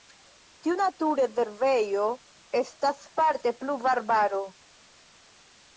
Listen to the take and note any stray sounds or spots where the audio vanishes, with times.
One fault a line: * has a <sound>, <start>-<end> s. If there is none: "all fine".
all fine